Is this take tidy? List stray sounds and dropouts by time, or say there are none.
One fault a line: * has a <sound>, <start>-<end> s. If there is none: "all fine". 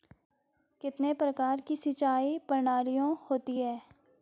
all fine